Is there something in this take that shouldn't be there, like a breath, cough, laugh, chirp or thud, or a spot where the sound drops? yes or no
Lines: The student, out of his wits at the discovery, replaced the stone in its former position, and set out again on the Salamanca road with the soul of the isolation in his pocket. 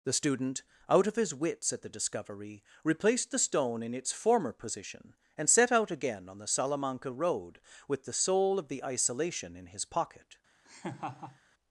yes